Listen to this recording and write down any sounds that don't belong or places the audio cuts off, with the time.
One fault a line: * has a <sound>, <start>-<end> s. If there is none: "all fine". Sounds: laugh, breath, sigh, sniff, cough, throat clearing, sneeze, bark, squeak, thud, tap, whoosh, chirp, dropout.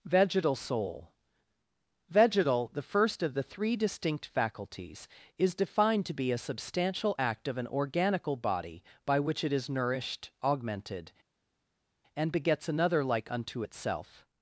all fine